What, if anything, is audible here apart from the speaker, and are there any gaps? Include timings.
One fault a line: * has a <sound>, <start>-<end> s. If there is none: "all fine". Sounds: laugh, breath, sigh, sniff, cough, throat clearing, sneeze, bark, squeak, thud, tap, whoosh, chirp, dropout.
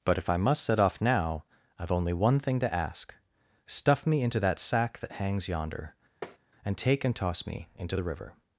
* has a tap, 6.2-6.4 s